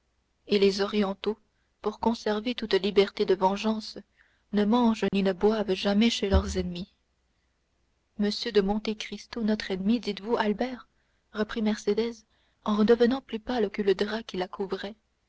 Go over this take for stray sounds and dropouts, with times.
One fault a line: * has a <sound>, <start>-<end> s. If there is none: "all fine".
* has a dropout, 5.1-5.1 s